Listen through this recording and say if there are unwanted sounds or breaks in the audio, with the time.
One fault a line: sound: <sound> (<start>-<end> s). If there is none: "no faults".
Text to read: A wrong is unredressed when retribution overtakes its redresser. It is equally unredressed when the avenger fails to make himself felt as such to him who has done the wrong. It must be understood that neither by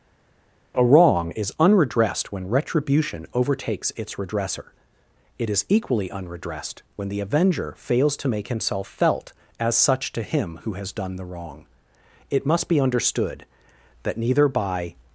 no faults